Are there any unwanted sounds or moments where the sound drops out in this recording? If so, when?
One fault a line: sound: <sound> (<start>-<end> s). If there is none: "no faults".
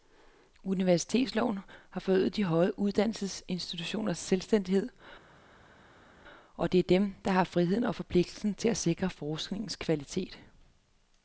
no faults